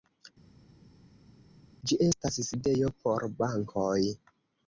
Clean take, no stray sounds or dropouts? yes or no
yes